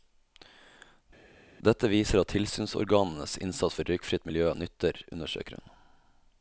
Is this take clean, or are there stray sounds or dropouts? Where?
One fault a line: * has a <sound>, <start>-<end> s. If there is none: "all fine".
all fine